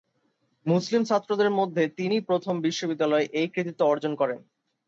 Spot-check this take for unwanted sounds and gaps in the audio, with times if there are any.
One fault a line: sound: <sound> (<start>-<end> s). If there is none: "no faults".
no faults